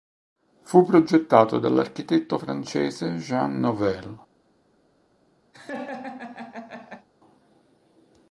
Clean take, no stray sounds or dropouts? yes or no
no